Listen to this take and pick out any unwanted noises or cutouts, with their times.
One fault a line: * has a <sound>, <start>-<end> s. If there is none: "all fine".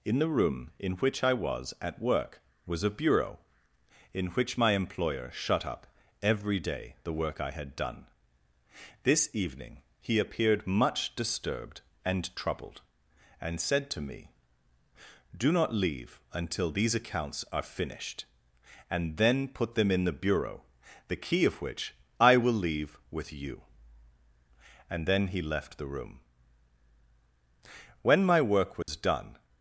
* has a dropout, 28.8-28.9 s